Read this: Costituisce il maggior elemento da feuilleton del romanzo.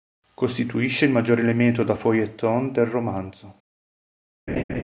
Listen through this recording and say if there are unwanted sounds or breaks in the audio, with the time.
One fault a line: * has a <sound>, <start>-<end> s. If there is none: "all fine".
* has a laugh, 4.5-4.8 s